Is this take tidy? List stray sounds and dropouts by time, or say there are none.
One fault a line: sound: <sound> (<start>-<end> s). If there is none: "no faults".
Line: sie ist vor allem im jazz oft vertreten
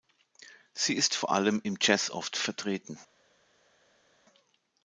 no faults